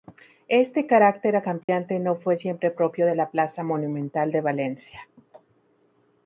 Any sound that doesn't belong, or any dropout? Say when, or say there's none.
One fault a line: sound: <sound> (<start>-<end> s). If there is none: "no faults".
sound: dropout (1.6-1.7 s)